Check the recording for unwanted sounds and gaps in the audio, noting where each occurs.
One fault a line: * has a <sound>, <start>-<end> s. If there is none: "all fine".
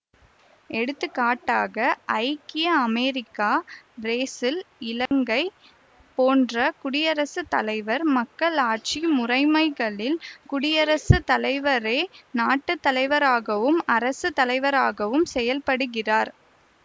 * has a dropout, 5.1-5.1 s